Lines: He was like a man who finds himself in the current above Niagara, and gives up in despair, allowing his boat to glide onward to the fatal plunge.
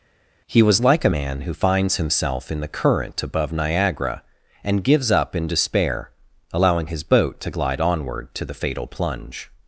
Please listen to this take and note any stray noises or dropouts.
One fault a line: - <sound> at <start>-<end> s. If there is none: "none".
none